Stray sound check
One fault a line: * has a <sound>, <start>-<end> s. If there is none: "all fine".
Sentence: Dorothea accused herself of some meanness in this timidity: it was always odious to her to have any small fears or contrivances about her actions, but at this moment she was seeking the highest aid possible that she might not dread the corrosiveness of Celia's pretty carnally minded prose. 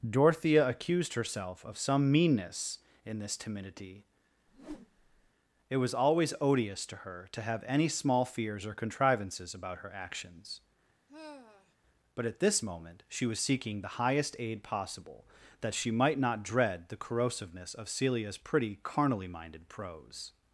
* has a whoosh, 4.5-5.3 s
* has a sigh, 11.1-11.7 s